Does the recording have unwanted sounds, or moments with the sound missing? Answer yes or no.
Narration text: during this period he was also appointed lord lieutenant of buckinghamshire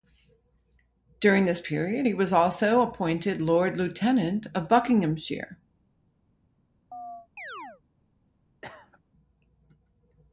yes